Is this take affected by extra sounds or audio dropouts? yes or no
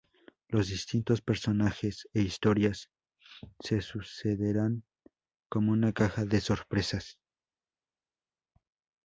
no